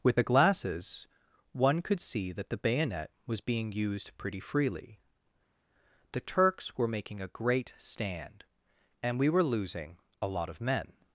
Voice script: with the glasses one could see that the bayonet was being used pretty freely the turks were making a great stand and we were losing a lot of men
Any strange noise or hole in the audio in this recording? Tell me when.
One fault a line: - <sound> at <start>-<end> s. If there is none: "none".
none